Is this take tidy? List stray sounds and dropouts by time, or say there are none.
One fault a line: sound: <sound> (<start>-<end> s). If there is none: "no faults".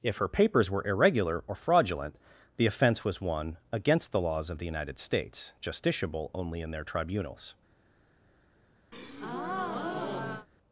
sound: breath (8.9-10.5 s)